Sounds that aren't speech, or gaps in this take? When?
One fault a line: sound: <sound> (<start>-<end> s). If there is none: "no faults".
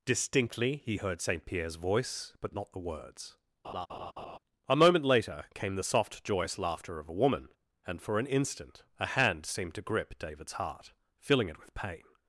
sound: laugh (3.6-4.4 s)